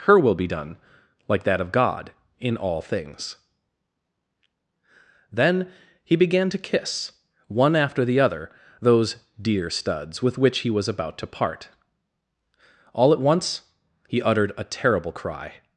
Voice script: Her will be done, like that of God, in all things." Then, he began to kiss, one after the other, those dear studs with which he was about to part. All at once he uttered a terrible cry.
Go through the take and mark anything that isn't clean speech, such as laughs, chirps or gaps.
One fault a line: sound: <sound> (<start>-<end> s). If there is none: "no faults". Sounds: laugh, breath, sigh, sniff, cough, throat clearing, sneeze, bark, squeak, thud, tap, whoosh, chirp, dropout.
no faults